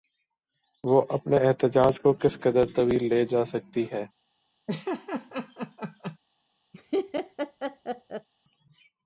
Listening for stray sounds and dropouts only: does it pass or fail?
fail